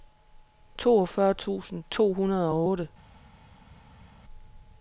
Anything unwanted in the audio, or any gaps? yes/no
no